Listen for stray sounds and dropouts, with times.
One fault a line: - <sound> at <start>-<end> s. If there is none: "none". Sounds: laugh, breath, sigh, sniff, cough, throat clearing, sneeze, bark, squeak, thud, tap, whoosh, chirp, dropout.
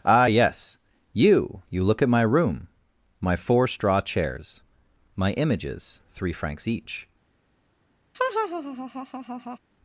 - laugh at 8.1-9.6 s